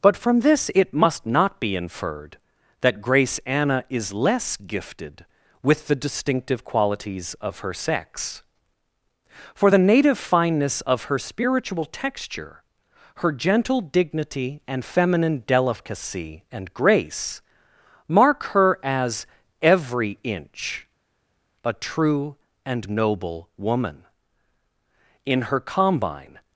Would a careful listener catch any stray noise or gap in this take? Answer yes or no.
no